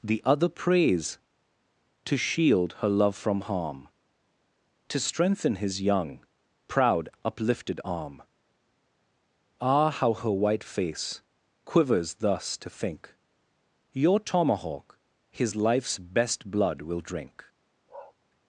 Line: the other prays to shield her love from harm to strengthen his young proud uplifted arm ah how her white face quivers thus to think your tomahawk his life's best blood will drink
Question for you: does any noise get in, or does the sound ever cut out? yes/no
yes